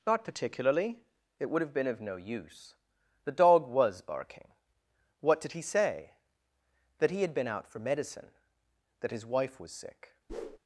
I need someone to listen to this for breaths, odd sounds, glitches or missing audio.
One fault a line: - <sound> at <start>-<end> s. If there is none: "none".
- whoosh at 10.3-10.6 s